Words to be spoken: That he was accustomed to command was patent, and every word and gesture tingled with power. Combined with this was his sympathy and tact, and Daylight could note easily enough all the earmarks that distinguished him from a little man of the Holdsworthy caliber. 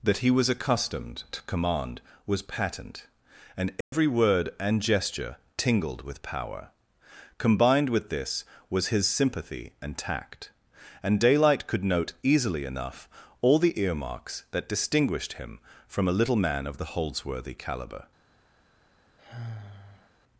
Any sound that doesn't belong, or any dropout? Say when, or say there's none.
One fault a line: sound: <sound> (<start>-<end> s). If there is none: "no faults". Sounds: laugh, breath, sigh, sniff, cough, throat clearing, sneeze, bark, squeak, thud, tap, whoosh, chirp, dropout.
sound: dropout (3.8-3.9 s)
sound: sigh (19.2-20.1 s)